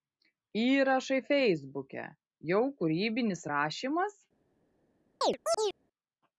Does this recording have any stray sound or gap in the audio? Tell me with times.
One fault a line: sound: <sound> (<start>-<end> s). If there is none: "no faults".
sound: chirp (5.2-5.8 s)